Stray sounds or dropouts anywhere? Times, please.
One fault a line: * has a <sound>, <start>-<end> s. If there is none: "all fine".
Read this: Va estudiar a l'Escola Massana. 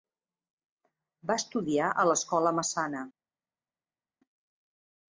all fine